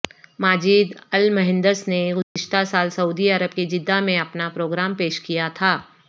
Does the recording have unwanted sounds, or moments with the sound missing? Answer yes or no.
yes